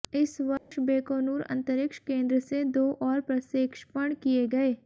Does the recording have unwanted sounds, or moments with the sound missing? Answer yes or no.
yes